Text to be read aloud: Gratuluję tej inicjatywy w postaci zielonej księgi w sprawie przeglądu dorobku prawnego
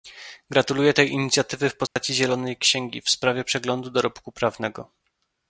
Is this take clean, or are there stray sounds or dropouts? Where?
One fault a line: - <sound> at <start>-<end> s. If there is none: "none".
- dropout at 1.9-2.0 s